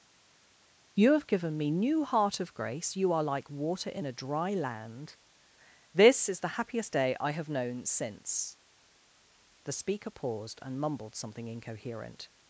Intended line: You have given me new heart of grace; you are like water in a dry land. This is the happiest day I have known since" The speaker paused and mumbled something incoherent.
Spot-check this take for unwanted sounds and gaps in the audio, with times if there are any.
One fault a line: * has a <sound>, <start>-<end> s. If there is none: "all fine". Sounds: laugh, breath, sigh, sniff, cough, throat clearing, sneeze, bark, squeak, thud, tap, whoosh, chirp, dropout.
all fine